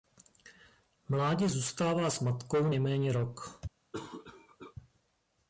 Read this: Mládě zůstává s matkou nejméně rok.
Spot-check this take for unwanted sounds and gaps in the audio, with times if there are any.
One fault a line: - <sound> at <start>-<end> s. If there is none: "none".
- cough at 3.9-4.8 s